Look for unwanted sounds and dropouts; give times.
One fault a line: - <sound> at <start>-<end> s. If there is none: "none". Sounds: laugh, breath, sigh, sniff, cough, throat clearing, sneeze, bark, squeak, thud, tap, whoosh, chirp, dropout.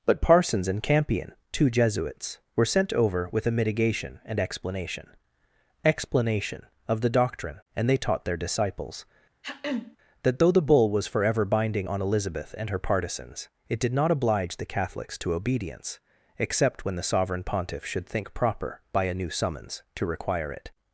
- throat clearing at 9.4-10.0 s